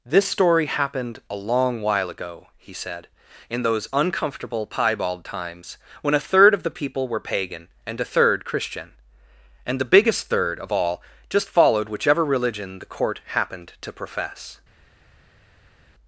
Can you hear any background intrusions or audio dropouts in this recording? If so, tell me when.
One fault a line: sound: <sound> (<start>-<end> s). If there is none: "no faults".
no faults